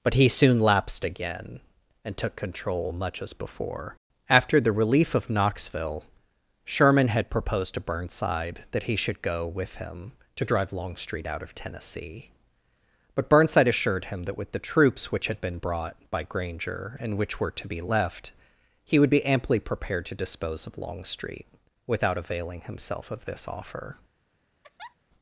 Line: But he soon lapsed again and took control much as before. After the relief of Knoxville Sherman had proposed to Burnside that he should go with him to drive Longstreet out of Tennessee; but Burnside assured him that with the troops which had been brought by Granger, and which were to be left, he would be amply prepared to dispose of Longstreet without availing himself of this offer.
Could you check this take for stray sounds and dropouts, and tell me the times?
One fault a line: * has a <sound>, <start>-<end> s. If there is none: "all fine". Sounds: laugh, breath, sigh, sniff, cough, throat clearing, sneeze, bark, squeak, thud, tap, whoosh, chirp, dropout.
* has a laugh, 24.6-25.0 s